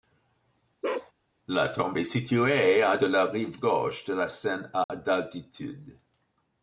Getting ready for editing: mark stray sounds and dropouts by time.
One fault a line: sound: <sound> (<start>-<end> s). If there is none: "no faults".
sound: bark (0.8-1.1 s)
sound: dropout (4.8-4.9 s)